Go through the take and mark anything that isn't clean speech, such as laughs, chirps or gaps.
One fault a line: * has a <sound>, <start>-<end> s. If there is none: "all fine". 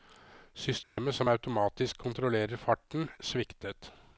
* has a dropout, 0.8-1.0 s